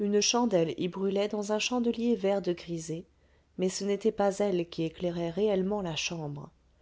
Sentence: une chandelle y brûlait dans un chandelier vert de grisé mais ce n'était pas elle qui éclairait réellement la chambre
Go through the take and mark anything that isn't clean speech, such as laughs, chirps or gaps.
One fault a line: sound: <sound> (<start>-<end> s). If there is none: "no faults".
no faults